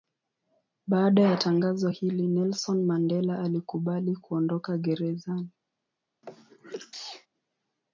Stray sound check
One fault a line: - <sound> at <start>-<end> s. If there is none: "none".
- sneeze at 6.2-7.3 s